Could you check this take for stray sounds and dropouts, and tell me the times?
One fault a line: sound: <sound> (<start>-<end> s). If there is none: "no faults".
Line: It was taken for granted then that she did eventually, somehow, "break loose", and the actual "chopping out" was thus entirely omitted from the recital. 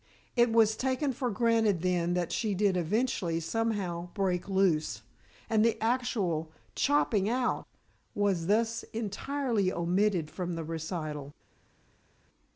no faults